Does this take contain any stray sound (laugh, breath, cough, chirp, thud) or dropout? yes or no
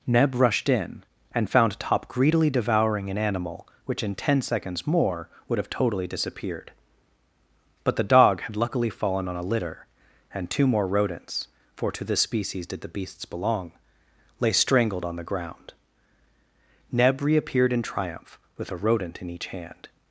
no